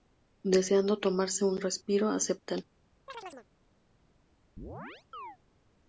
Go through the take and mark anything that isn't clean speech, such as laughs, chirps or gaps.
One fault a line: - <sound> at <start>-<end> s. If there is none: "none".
- chirp at 3.1-3.5 s
- chirp at 4.6-5.4 s